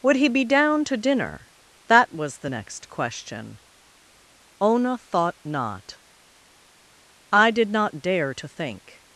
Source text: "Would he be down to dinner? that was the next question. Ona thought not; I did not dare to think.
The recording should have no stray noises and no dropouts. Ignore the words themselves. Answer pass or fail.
pass